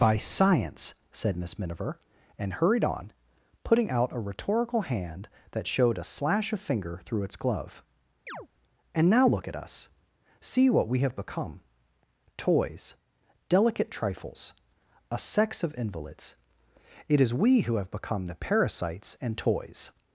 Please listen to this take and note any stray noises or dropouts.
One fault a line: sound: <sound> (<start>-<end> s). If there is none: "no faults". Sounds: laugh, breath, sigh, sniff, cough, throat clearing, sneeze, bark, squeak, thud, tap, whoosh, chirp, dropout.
sound: chirp (8.3-8.5 s)